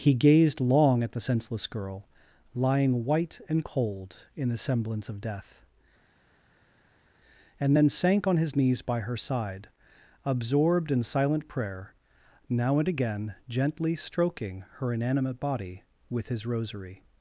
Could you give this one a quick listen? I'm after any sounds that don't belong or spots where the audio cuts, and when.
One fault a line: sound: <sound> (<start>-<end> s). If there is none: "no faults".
no faults